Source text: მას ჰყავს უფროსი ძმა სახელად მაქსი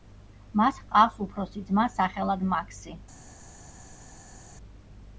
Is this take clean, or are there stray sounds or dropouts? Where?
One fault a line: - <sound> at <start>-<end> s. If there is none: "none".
none